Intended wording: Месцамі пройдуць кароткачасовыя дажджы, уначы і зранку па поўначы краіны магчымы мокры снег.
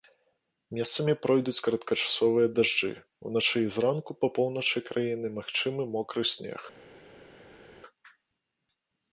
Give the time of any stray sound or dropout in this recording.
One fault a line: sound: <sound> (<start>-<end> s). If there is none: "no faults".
no faults